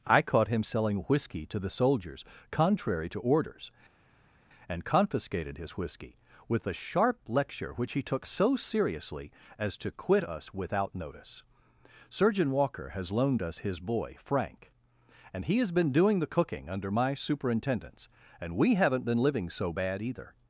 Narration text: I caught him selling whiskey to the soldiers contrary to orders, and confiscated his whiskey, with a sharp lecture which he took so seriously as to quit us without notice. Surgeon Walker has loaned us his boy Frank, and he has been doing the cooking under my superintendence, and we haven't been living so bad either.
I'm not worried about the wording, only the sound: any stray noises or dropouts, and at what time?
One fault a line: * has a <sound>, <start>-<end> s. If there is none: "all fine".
all fine